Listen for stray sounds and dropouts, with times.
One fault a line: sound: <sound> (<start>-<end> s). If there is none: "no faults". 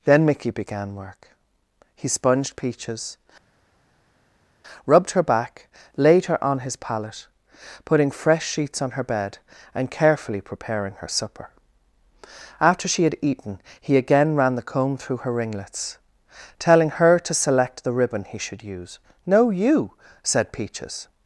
no faults